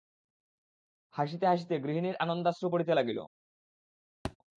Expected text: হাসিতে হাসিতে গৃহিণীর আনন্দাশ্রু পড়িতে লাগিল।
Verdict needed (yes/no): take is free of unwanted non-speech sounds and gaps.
no